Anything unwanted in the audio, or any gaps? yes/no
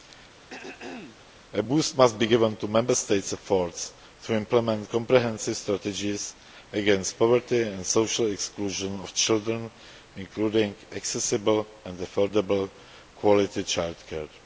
yes